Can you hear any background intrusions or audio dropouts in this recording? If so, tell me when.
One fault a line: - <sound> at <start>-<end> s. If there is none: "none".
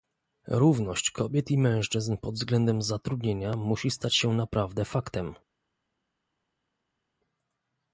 none